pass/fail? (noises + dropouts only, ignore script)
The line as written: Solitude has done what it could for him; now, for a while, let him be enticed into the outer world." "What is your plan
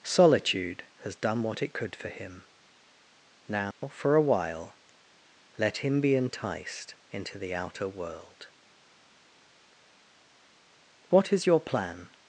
fail